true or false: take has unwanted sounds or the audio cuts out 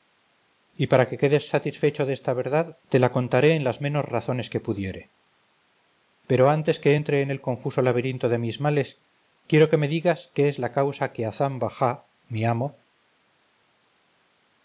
false